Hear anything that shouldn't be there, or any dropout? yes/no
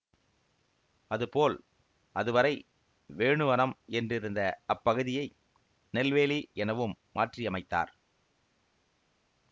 no